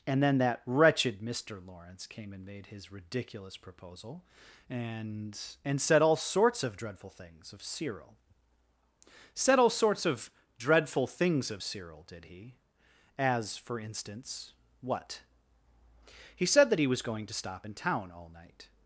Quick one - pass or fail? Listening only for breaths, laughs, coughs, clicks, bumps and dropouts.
pass